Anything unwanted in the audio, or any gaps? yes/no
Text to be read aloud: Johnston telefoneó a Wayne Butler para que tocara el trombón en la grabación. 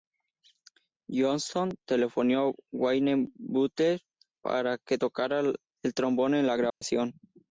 yes